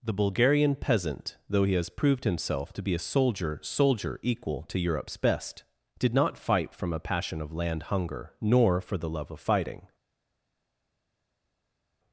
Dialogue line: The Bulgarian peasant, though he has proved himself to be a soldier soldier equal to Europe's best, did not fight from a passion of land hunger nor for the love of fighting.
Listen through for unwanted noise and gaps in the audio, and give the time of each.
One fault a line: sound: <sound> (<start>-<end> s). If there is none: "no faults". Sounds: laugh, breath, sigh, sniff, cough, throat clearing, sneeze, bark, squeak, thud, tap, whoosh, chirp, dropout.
no faults